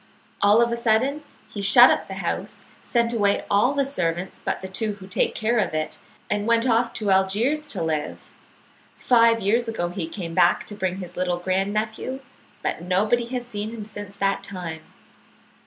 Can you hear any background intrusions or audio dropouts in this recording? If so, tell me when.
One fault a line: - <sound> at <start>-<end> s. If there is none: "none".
none